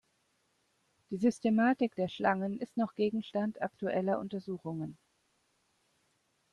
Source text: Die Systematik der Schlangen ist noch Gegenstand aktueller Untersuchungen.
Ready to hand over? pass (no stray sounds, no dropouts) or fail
pass